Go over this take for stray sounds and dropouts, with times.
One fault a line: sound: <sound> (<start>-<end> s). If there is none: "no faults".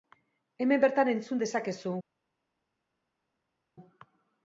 no faults